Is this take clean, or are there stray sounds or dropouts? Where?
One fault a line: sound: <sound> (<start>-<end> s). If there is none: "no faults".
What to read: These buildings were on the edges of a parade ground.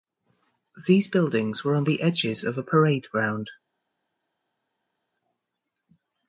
no faults